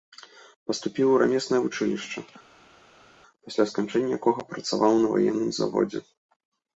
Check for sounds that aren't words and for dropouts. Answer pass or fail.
pass